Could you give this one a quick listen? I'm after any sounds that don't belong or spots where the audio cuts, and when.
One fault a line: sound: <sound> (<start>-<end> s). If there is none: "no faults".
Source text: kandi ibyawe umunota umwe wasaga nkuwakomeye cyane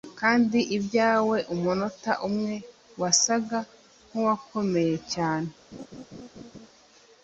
sound: laugh (5.7-6.7 s)